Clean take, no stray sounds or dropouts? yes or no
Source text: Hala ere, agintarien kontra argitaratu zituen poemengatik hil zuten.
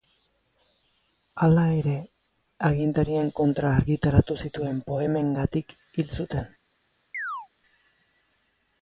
no